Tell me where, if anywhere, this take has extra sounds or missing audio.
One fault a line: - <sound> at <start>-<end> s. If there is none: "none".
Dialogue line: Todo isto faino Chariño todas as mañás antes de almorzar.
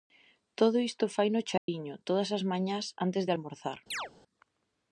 - dropout at 1.6-1.7 s
- chirp at 3.9-4.1 s